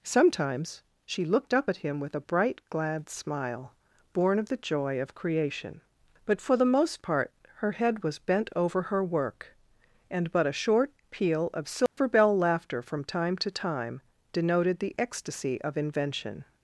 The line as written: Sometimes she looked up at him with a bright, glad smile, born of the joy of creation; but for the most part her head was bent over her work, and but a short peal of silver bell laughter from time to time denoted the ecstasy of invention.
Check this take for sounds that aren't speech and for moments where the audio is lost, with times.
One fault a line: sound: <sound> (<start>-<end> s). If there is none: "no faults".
sound: dropout (11.9-12.0 s)